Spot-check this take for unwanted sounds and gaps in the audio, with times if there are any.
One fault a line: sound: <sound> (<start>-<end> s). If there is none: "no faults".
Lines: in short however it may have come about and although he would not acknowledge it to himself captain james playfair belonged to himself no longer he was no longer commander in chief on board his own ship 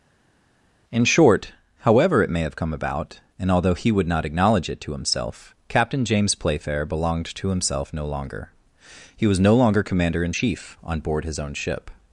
no faults